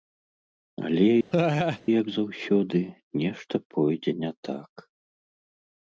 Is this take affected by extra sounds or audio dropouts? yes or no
yes